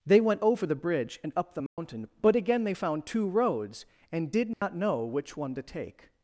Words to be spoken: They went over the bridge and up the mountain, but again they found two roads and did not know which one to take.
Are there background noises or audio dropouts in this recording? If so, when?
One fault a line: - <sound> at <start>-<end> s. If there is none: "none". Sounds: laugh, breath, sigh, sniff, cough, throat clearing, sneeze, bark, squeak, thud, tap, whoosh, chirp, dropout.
- dropout at 1.7-1.8 s
- dropout at 4.5-4.6 s